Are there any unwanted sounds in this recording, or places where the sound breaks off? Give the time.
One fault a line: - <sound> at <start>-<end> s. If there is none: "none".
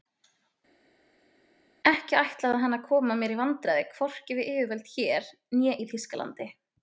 none